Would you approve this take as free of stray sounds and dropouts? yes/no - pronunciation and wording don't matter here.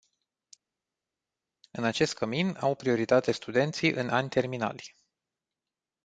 yes